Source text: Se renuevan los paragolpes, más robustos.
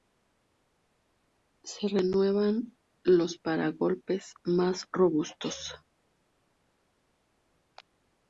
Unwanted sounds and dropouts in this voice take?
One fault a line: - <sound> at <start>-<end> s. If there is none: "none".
none